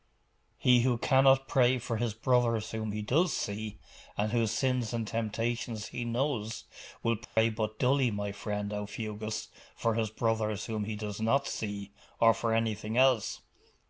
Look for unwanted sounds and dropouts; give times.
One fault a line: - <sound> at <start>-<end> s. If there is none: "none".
- dropout at 7.2-7.4 s